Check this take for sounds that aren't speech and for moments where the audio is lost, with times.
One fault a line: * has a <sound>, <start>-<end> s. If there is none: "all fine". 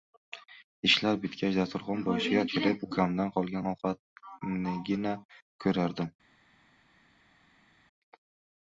all fine